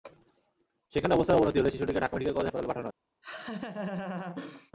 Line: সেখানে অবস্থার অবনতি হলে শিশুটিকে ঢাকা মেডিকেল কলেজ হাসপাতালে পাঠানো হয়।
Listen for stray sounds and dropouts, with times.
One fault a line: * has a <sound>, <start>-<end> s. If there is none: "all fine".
* has a laugh, 3.2-4.7 s